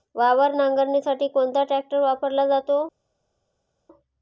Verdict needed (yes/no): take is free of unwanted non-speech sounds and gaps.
yes